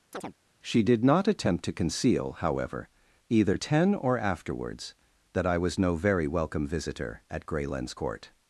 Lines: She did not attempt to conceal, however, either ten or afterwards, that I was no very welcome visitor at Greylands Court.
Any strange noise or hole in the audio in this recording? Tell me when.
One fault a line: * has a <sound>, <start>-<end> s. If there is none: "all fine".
* has a chirp, 0.1-0.3 s